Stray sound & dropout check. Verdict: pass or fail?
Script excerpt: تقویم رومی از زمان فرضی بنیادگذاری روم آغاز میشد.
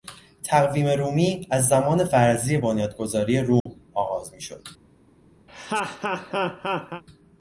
fail